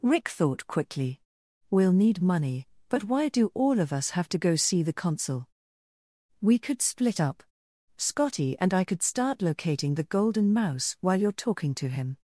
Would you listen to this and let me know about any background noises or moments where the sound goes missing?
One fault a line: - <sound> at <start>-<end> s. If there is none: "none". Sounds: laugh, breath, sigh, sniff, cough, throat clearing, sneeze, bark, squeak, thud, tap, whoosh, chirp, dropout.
none